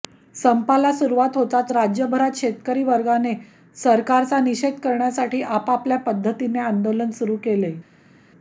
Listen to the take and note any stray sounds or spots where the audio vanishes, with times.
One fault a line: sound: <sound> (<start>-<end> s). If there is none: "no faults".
no faults